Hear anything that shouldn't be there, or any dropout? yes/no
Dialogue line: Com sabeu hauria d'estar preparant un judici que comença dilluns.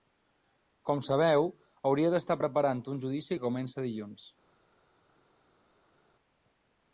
no